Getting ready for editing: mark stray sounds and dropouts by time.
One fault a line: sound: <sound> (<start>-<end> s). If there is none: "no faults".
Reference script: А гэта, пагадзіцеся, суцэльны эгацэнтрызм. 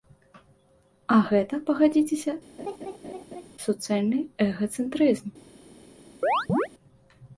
sound: laugh (2.6-3.5 s)
sound: chirp (6.2-6.7 s)